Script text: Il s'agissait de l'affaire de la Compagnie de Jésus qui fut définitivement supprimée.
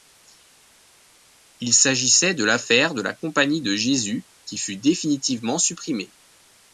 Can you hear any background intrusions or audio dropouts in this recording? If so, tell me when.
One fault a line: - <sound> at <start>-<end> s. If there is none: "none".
none